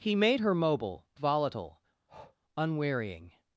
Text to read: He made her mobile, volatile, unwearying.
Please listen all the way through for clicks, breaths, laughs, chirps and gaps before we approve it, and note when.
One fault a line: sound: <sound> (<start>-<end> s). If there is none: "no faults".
sound: breath (2.1-2.4 s)